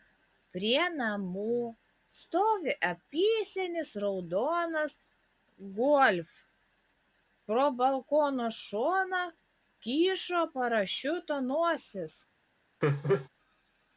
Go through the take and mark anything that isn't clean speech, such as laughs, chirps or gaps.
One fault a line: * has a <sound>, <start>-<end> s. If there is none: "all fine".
* has a laugh, 12.8-13.3 s